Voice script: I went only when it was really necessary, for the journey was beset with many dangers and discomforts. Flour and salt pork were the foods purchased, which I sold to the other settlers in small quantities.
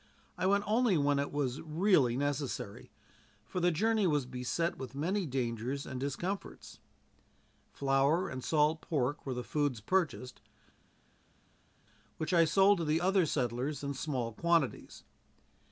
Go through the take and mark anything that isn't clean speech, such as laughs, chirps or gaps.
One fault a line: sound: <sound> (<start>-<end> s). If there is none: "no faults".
no faults